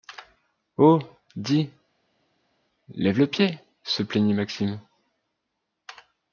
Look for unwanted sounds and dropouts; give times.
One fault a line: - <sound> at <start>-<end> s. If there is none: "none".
none